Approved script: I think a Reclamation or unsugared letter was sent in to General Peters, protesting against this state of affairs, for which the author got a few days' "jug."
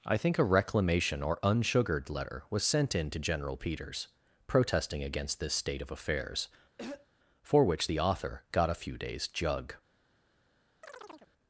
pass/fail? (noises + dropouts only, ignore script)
fail